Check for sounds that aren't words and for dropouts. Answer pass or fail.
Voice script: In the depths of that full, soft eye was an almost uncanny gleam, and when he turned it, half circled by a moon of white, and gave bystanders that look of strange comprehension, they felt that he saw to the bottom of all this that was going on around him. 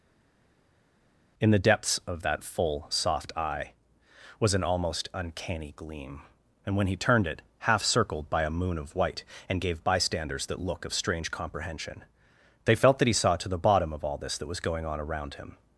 pass